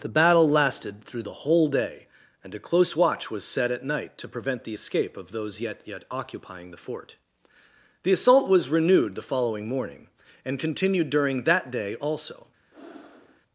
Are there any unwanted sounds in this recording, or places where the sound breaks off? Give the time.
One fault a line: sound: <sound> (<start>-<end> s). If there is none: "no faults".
sound: breath (12.7-13.4 s)